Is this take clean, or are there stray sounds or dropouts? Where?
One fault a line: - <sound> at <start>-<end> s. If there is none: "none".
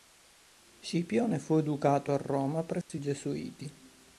- dropout at 2.8-2.9 s